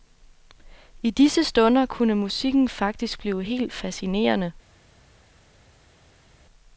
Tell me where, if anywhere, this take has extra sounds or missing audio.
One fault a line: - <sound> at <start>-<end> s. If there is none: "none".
none